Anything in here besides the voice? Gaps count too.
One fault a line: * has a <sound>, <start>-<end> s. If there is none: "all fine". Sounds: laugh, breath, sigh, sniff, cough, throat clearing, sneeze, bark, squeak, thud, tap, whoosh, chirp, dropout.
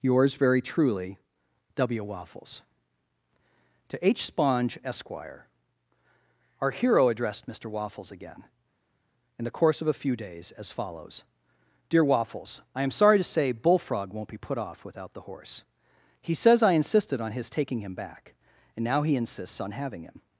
all fine